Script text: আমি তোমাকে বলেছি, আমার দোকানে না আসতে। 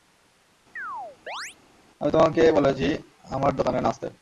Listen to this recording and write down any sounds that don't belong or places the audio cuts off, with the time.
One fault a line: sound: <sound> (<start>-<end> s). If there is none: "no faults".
sound: chirp (0.8-1.6 s)